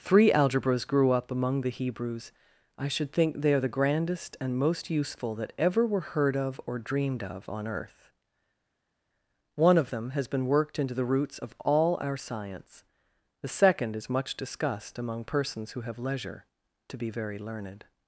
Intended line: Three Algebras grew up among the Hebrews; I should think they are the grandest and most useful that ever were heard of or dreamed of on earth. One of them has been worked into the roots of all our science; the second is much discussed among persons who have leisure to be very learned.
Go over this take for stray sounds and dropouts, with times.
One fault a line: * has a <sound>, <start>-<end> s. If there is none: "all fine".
all fine